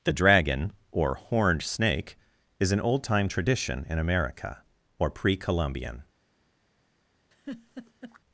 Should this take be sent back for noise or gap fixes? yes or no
yes